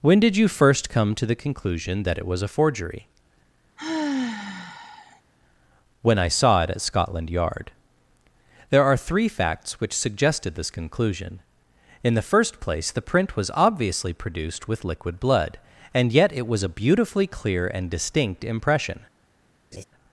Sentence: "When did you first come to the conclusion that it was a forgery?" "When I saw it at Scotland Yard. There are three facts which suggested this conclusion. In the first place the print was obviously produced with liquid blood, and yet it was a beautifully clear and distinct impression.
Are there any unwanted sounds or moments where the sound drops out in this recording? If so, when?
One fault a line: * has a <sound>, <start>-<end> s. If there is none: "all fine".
* has a sigh, 3.8-5.2 s
* has a laugh, 19.7-19.8 s